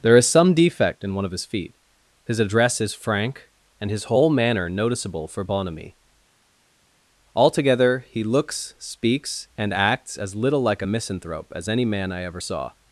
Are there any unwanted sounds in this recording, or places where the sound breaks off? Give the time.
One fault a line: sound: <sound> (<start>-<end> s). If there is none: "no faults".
no faults